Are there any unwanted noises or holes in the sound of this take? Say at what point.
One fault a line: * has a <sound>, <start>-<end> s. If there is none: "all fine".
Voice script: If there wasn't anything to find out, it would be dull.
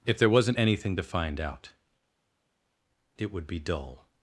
all fine